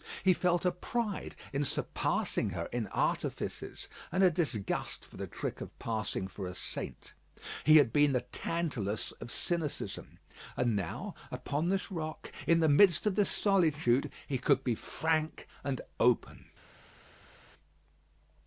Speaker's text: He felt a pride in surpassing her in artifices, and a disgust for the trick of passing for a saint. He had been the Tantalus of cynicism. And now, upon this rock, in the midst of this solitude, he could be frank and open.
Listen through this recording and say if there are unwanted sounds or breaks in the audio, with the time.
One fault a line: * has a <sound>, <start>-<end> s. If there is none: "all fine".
all fine